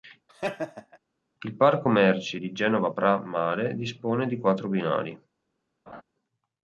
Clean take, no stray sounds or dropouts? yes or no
no